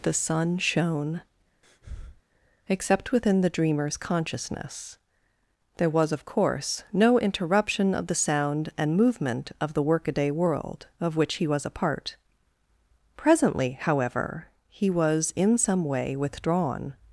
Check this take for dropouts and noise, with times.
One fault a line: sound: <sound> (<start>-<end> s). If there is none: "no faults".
sound: breath (1.6-2.2 s)